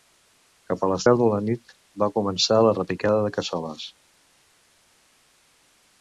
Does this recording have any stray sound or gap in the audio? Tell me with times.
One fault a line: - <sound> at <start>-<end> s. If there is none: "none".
none